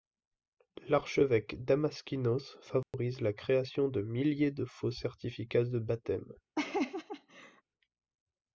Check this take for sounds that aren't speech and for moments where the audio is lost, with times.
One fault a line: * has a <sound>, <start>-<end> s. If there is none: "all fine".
* has a dropout, 2.8-2.9 s
* has a laugh, 6.6-7.6 s